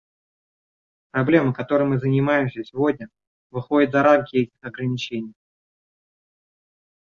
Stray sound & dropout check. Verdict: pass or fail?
pass